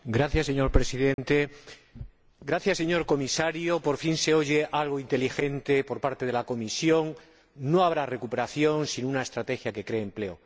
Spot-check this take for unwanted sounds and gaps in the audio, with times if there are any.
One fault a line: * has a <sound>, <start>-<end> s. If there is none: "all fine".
* has a dropout, 1.1-1.2 s